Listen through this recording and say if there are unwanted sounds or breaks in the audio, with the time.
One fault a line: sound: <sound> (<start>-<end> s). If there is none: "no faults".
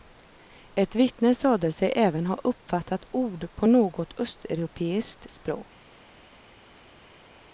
no faults